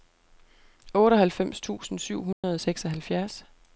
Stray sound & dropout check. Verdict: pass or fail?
fail